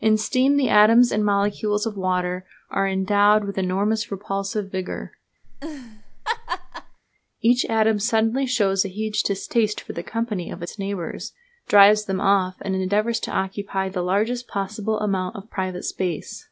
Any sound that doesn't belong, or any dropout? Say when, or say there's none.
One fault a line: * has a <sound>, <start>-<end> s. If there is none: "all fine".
* has a laugh, 5.4-7.0 s